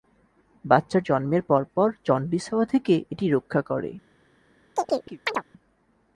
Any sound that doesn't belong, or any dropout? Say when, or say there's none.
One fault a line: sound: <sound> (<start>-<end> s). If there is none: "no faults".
sound: chirp (4.8-5.4 s)